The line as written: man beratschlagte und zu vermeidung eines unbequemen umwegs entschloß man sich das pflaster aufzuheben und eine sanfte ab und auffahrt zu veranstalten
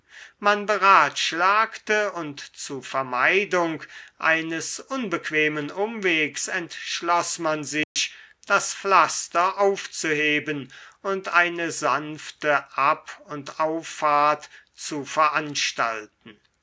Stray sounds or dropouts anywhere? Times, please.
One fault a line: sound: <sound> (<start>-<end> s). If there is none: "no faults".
sound: dropout (7.8-8.0 s)